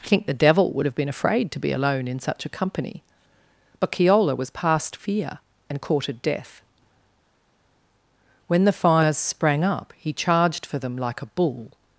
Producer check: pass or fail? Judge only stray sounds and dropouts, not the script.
pass